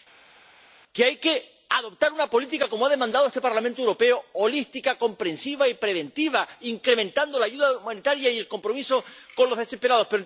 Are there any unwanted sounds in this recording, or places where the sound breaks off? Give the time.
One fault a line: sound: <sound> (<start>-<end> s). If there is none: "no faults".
no faults